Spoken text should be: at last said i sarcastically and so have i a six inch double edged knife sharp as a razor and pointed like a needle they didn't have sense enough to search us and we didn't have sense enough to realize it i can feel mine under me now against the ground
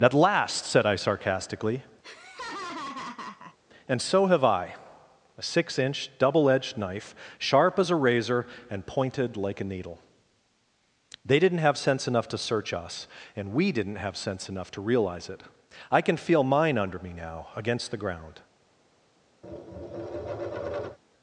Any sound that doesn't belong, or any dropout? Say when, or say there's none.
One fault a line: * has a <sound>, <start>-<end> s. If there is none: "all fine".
* has a laugh, 2.0-3.6 s
* has a tap, 19.4-21.0 s